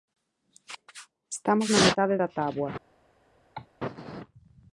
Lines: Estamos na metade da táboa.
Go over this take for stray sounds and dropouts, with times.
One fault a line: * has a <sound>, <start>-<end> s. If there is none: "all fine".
* has a cough, 3.5-3.7 s